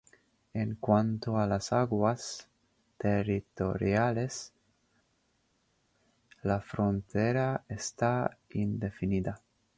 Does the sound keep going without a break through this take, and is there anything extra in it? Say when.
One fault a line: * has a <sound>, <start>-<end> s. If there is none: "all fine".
all fine